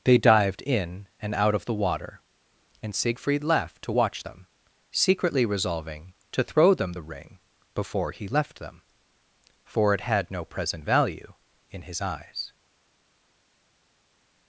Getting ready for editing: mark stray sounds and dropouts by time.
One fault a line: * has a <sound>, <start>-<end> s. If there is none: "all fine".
all fine